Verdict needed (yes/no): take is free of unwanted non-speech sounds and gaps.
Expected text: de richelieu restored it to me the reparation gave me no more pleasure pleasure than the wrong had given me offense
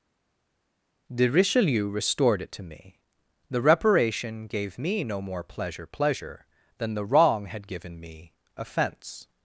yes